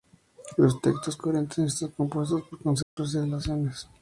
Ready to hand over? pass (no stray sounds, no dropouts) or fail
fail